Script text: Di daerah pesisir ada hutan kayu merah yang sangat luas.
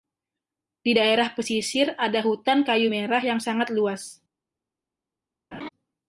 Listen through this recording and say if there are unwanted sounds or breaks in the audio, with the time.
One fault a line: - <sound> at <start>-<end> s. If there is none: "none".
- laugh at 5.5-5.7 s